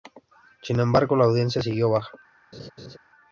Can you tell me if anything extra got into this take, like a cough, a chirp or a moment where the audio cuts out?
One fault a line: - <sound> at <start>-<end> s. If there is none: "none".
- laugh at 2.5-3.0 s